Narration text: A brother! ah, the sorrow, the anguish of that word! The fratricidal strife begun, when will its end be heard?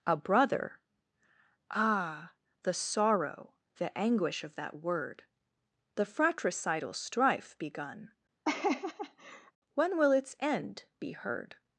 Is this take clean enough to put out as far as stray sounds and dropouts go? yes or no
no